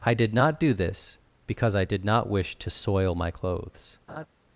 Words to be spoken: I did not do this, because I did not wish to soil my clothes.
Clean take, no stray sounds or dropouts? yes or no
no